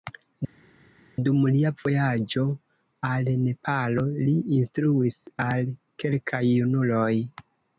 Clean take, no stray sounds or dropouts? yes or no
yes